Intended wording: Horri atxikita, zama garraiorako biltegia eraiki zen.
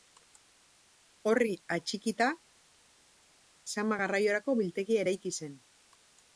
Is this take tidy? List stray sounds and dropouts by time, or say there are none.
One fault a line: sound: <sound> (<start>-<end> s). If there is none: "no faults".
no faults